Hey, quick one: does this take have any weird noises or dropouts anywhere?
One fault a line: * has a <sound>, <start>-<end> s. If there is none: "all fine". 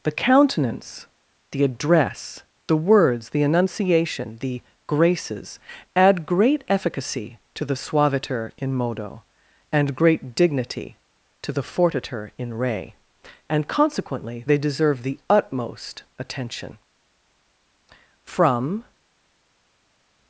all fine